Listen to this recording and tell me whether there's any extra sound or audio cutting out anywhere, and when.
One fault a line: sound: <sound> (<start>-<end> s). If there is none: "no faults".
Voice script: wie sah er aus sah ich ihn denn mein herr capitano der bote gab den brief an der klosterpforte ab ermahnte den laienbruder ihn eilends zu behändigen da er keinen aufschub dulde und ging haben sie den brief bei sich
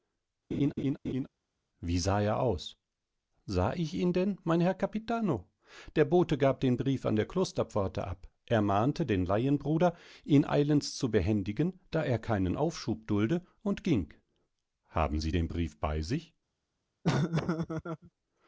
sound: laugh (0.5-1.3 s)
sound: laugh (17.0-18.1 s)